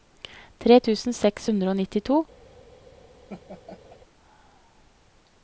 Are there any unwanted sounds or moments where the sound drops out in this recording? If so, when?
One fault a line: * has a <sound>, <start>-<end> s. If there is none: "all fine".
* has a laugh, 3.3-4.0 s